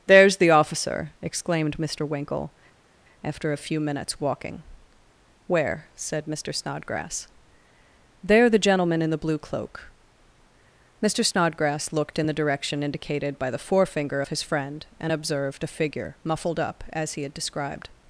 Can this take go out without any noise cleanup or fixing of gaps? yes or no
yes